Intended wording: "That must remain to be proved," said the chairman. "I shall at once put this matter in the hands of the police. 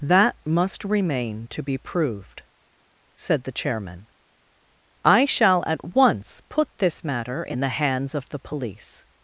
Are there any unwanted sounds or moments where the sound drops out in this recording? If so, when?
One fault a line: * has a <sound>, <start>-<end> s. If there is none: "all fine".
all fine